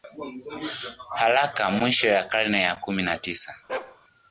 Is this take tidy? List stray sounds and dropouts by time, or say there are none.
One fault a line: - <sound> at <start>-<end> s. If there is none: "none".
- bark at 3.7-4.0 s